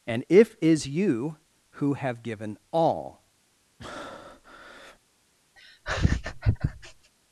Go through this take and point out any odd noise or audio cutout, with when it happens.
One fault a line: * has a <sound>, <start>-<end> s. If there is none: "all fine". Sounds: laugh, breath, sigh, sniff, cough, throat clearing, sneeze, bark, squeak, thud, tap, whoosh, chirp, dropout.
* has a breath, 3.8-5.0 s
* has a laugh, 5.6-7.1 s